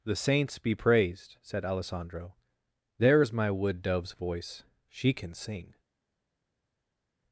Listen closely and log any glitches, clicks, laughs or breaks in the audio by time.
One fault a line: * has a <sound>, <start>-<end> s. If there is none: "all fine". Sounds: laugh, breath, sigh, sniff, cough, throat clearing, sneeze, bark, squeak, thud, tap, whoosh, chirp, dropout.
all fine